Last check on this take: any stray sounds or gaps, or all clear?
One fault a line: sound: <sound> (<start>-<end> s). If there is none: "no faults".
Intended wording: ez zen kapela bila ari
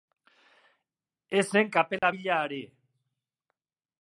sound: dropout (2.0-2.0 s)